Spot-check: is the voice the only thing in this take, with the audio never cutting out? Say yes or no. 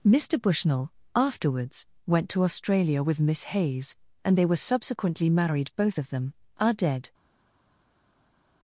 yes